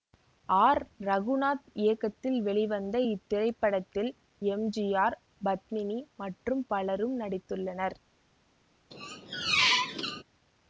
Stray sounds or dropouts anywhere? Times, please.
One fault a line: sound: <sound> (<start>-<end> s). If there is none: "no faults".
sound: squeak (8.9-10.2 s)